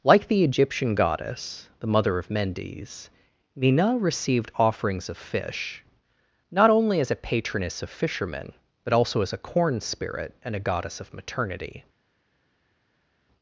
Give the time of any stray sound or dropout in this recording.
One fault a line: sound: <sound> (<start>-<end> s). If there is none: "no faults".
no faults